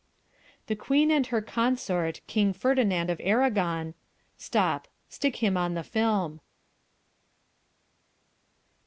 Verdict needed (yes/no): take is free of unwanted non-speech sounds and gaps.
yes